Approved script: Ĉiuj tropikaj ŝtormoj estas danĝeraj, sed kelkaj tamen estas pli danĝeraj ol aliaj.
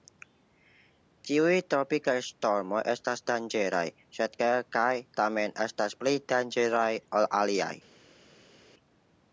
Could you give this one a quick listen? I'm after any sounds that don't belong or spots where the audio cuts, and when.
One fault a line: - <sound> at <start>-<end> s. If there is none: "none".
none